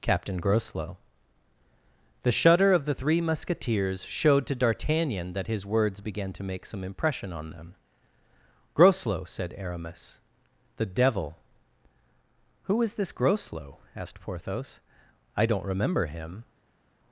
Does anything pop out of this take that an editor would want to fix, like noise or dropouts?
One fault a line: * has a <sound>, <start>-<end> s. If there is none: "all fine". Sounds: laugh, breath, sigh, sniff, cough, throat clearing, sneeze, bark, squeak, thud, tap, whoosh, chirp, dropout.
all fine